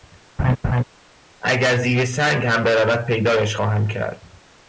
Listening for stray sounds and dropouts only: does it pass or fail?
fail